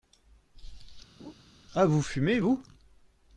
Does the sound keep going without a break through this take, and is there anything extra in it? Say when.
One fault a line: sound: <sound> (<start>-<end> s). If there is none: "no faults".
sound: laugh (1.2-1.3 s)